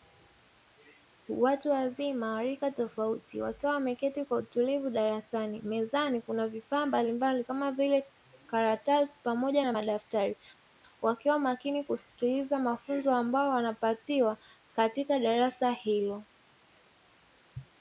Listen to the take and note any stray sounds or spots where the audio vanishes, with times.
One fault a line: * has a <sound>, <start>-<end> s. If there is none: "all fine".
all fine